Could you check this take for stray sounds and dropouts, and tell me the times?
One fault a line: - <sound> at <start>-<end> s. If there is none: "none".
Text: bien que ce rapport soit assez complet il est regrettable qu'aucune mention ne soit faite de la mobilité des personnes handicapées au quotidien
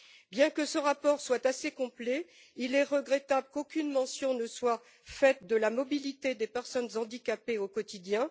none